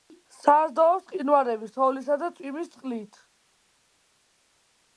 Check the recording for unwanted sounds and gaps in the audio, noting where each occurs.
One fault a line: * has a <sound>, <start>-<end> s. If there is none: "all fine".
all fine